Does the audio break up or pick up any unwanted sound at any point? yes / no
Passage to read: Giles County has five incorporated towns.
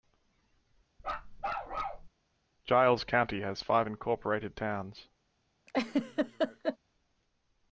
yes